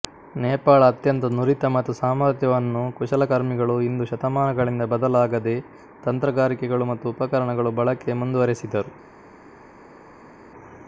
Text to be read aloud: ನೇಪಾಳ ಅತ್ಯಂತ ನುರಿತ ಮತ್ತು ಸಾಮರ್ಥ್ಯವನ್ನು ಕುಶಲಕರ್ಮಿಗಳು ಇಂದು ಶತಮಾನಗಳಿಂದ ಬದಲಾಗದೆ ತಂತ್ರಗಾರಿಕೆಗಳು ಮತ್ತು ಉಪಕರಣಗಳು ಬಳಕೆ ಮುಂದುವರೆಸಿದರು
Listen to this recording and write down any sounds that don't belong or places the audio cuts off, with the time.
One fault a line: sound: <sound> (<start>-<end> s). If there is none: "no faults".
no faults